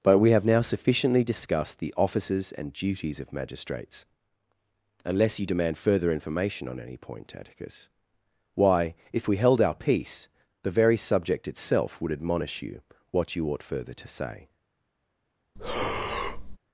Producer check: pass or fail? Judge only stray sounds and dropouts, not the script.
fail